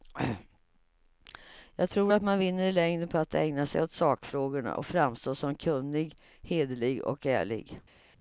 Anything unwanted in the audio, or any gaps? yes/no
no